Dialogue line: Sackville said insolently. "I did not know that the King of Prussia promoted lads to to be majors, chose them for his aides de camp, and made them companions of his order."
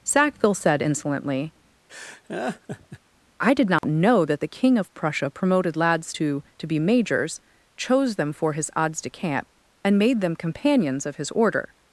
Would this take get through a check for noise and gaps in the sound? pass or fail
fail